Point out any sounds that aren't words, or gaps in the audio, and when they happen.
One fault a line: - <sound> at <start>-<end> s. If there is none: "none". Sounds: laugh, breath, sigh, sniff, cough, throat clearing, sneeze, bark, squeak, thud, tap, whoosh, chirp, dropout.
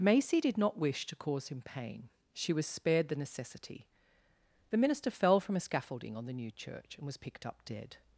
none